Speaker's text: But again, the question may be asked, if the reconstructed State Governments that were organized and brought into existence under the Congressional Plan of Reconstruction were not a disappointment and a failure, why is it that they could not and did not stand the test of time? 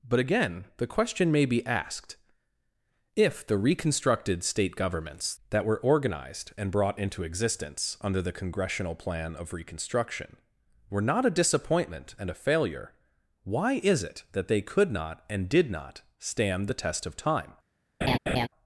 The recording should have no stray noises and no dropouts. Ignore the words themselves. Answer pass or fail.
fail